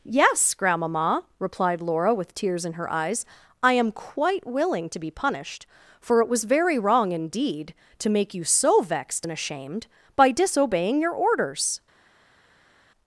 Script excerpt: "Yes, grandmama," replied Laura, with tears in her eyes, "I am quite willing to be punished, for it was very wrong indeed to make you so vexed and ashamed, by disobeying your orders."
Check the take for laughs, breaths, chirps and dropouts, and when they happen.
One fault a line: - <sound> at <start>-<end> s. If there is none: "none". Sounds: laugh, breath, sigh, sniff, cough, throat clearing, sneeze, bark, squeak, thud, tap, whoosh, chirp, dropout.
none